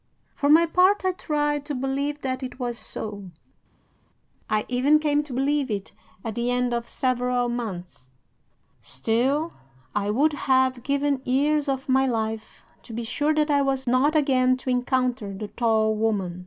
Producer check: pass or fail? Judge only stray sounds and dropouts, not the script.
pass